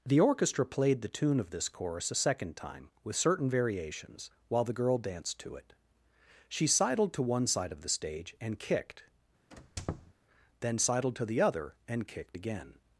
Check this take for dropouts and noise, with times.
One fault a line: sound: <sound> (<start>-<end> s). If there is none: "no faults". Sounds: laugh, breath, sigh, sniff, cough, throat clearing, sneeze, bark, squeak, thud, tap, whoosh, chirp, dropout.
sound: squeak (9.5-10.1 s)